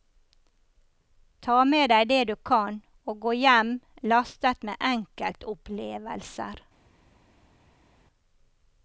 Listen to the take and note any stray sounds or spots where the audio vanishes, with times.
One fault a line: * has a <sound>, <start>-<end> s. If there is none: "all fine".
all fine